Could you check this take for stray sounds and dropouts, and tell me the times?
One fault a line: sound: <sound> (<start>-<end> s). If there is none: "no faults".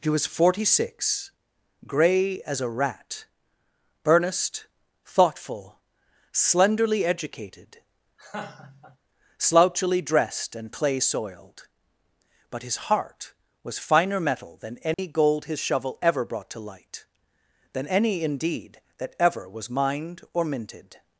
sound: laugh (8.2-9.0 s)
sound: dropout (14.9-15.0 s)